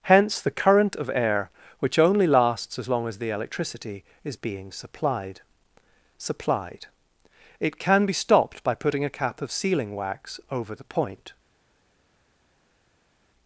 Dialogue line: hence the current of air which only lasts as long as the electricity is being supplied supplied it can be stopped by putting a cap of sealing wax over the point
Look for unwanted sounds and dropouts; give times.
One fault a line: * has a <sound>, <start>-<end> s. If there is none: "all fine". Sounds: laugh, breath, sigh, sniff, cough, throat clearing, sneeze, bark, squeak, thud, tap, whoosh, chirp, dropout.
all fine